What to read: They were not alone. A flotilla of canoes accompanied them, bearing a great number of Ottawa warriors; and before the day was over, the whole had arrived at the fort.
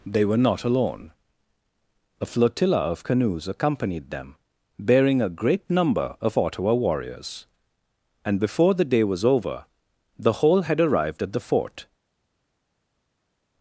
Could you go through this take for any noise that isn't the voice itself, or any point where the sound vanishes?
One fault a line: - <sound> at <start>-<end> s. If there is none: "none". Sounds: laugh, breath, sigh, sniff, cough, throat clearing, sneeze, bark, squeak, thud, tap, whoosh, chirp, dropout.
none